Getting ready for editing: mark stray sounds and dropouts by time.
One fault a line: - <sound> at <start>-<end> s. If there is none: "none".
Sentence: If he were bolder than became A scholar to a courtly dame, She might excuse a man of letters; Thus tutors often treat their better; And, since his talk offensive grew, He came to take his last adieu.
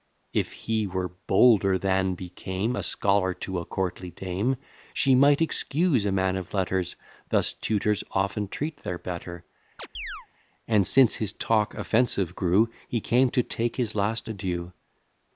- chirp at 9.8-10.3 s